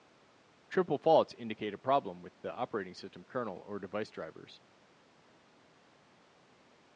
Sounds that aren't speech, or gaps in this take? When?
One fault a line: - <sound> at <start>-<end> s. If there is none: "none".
none